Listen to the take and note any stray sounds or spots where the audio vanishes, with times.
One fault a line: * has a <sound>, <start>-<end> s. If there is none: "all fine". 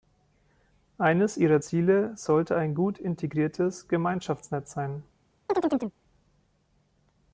* has a chirp, 5.5-6.0 s